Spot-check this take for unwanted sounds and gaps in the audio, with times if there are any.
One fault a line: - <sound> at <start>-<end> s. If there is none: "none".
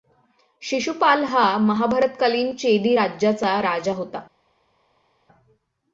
none